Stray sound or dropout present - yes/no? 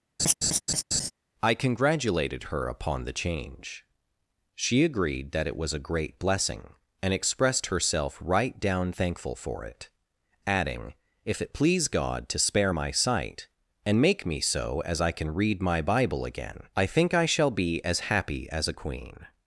yes